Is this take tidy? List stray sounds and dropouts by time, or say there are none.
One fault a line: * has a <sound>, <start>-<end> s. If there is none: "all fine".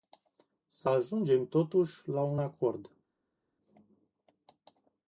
all fine